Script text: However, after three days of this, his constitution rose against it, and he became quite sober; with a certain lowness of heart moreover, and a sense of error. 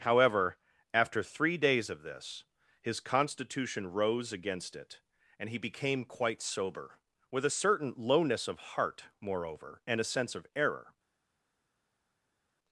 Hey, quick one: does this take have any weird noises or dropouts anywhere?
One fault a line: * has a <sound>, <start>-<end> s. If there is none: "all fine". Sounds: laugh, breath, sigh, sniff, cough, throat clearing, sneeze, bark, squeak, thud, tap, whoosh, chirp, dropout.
all fine